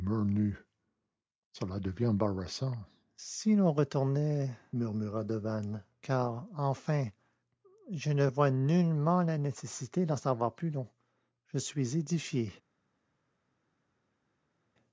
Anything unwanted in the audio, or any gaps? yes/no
no